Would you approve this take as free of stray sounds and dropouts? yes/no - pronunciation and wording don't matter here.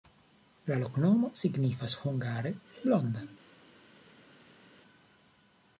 yes